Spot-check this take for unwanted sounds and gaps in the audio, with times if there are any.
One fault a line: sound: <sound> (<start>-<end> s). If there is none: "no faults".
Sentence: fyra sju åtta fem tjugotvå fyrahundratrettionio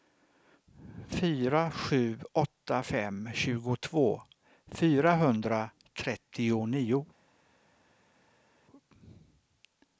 no faults